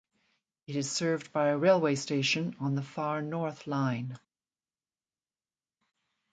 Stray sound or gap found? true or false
false